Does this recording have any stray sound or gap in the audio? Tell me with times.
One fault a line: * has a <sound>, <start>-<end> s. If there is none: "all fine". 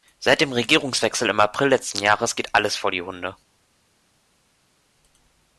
all fine